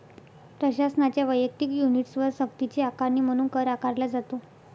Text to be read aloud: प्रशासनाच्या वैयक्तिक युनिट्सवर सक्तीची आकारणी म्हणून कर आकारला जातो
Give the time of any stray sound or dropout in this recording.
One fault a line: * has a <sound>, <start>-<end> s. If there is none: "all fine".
all fine